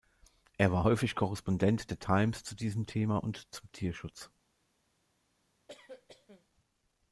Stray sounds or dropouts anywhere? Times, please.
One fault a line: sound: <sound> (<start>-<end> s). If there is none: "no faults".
sound: cough (5.7-6.5 s)